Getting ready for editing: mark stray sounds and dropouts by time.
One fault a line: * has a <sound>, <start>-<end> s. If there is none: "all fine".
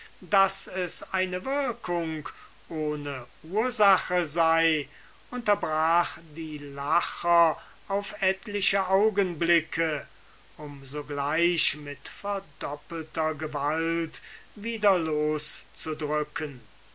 all fine